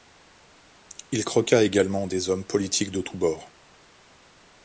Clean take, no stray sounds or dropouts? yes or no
yes